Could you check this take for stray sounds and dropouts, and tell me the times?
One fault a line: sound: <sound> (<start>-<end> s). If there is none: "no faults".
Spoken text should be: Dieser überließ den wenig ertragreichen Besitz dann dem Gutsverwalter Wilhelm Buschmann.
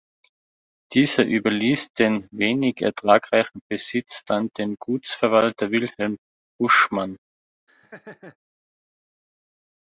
sound: laugh (7.7-8.4 s)